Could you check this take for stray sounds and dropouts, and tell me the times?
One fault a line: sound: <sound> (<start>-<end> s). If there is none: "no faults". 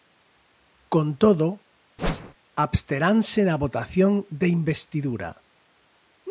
sound: whoosh (2.0-2.3 s)